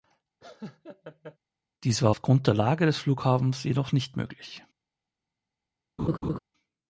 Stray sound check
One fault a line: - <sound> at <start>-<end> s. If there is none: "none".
- laugh at 0.4-1.4 s
- laugh at 6.0-6.4 s